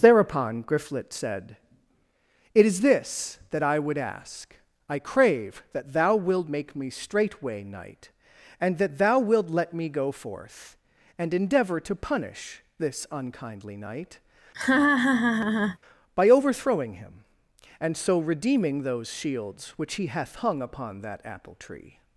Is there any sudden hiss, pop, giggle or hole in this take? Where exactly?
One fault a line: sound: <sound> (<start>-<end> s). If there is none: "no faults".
sound: laugh (14.5-15.8 s)